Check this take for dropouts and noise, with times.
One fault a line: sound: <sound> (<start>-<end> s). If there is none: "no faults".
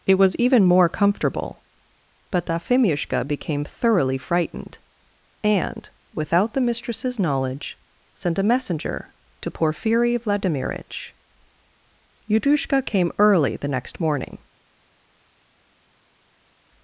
no faults